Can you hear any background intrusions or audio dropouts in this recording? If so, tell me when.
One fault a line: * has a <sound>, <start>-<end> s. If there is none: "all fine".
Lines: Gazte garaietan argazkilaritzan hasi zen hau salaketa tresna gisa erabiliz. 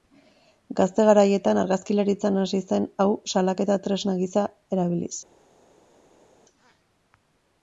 all fine